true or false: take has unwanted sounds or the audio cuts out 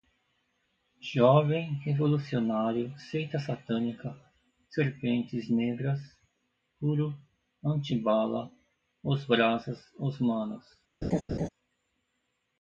true